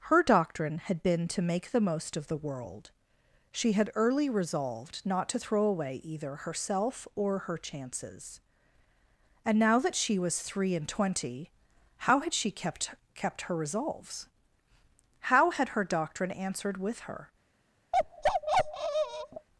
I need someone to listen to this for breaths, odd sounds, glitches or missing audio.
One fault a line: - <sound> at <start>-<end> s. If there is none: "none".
- bark at 17.9-19.5 s